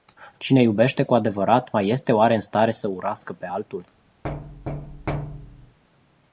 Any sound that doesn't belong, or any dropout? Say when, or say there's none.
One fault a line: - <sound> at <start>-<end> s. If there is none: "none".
- thud at 4.2-5.8 s